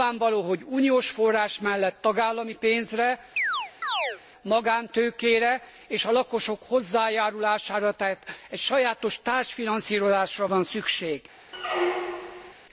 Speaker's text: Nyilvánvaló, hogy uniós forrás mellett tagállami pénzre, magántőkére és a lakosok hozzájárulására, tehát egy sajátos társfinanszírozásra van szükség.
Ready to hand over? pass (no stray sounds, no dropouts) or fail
fail